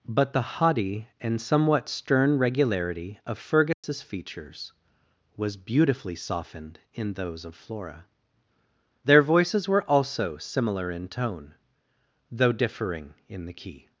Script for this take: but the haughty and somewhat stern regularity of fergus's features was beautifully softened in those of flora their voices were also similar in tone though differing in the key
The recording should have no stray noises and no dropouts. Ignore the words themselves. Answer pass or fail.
fail